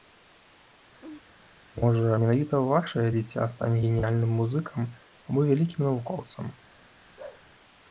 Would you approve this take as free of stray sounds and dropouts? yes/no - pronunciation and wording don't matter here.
no